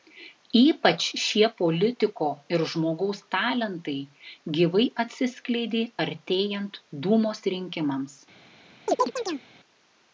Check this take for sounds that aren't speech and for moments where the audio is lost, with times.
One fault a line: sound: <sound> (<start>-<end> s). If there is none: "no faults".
sound: chirp (8.9-9.5 s)